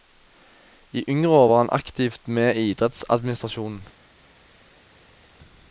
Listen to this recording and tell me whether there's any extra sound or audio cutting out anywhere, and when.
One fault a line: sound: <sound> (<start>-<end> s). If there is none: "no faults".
no faults